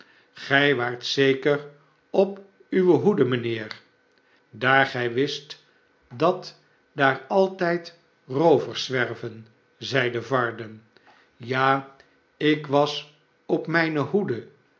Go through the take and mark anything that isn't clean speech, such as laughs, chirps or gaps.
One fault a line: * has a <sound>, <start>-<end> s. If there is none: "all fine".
all fine